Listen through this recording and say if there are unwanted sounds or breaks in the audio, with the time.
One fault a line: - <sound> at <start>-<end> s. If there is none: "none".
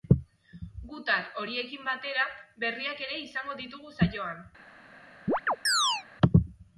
- chirp at 5.3-6.0 s